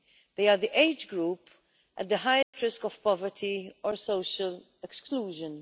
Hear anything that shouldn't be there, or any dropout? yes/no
yes